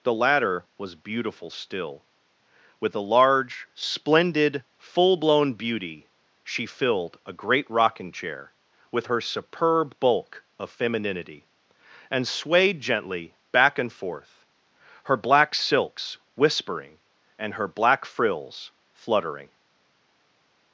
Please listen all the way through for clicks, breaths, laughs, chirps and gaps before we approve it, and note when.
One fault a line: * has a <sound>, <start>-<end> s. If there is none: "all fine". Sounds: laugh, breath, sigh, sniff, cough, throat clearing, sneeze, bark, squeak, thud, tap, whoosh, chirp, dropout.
all fine